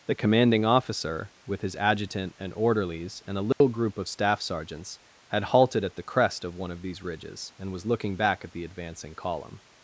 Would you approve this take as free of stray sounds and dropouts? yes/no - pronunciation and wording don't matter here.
no